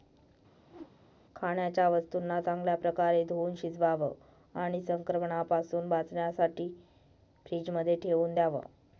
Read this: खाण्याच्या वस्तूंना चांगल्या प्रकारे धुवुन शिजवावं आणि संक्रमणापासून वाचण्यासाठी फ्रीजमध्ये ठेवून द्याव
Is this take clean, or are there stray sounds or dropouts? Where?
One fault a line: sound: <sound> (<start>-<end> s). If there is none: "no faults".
sound: whoosh (0.6-1.0 s)